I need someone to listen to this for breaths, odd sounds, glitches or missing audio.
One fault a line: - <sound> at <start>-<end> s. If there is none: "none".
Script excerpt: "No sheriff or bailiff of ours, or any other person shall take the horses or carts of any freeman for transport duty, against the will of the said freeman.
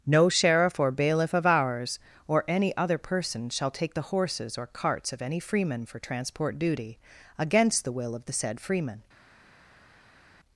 none